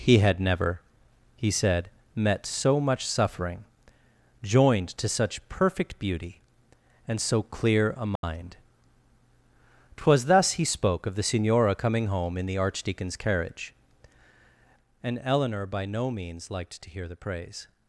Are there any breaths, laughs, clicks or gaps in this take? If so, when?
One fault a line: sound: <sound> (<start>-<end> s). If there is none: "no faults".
sound: dropout (8.2-8.2 s)